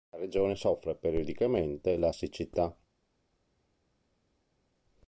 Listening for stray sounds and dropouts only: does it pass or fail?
pass